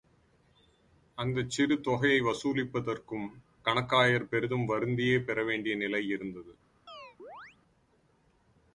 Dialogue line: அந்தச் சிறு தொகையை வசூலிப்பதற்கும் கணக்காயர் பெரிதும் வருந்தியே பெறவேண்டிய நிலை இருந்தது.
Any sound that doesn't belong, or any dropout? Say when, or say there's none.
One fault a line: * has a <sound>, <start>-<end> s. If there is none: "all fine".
* has a chirp, 6.9-7.6 s